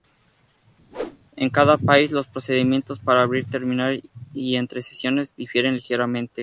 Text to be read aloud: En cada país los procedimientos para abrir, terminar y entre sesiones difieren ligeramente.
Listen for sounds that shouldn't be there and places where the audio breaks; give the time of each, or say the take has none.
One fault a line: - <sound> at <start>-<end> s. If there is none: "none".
- whoosh at 0.9-1.2 s